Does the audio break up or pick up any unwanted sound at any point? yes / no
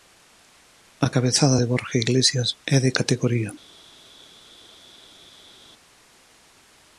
no